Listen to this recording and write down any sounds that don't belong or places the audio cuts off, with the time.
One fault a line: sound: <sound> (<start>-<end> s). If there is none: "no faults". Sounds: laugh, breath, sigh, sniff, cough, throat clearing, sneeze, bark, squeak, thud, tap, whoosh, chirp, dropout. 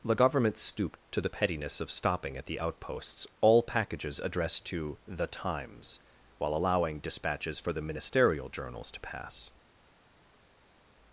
no faults